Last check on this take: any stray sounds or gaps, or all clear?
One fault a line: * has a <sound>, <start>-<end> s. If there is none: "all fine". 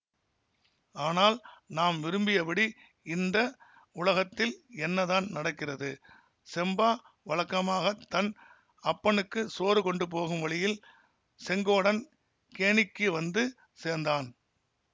all fine